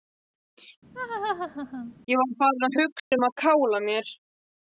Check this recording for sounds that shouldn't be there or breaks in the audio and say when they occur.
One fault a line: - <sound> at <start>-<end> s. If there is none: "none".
- laugh at 0.9-1.9 s
- dropout at 3.0-3.1 s